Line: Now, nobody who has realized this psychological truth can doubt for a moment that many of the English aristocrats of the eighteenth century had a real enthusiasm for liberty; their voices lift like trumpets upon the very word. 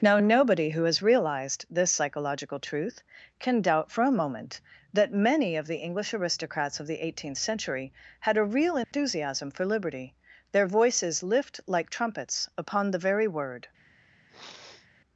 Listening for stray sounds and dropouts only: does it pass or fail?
fail